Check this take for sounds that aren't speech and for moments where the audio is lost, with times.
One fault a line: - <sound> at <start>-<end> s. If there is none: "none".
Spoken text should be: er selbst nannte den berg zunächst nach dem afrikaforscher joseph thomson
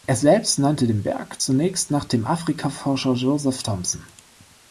none